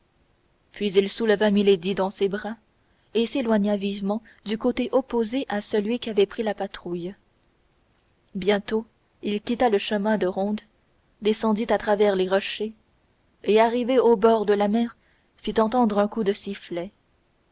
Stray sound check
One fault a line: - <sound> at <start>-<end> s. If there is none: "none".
none